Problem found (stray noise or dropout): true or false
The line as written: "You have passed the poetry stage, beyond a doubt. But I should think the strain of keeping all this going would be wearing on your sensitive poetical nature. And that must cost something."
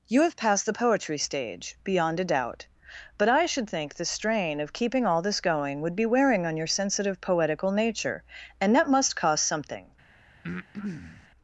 true